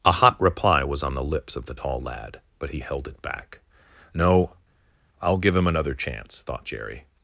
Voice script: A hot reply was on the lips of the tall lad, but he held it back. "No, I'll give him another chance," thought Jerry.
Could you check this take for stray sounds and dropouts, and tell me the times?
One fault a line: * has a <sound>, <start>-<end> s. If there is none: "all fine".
all fine